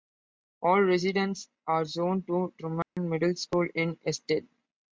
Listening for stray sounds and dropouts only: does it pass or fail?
fail